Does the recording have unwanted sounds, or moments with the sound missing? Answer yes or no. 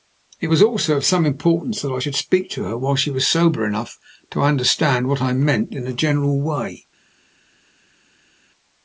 no